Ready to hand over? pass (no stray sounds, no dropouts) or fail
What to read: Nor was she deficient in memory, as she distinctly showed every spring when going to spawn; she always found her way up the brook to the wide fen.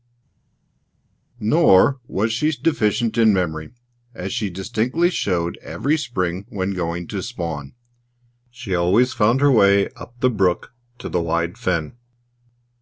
pass